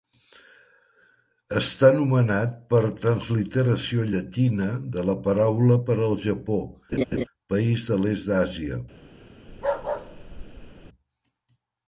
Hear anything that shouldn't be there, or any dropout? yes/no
yes